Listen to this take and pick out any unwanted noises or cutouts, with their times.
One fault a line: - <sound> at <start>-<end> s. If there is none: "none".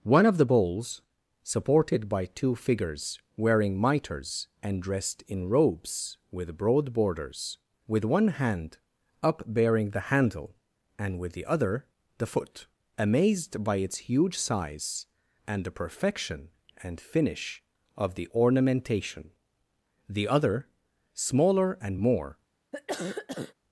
- cough at 22.7-23.5 s